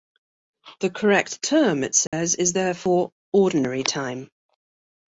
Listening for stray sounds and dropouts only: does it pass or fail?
fail